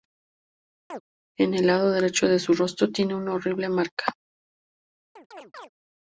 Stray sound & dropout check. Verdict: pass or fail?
fail